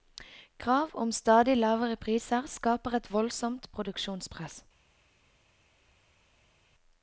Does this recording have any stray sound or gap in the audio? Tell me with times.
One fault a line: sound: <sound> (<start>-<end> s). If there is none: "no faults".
no faults